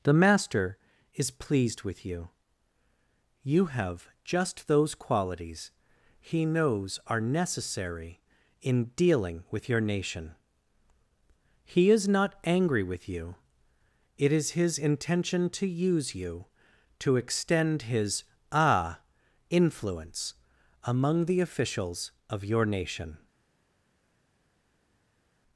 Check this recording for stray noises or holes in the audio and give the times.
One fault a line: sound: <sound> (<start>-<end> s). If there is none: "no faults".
no faults